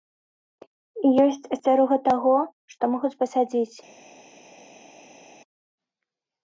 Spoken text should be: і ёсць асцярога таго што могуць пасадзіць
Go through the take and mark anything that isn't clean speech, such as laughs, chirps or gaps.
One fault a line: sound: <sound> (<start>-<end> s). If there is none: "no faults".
no faults